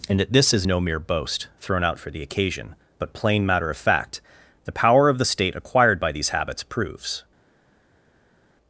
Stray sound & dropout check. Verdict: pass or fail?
pass